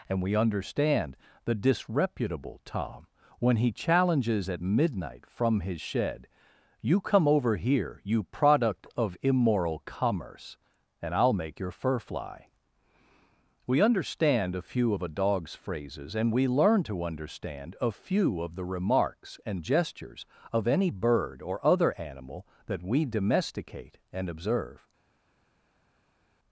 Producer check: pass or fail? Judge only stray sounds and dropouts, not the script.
pass